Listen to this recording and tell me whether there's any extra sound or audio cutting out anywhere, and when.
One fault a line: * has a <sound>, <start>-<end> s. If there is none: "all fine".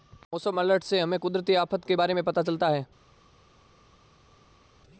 all fine